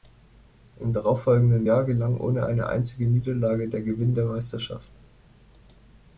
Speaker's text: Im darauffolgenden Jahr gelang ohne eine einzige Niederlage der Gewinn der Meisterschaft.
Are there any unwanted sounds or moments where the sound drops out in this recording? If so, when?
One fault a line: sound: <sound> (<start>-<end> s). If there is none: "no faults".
no faults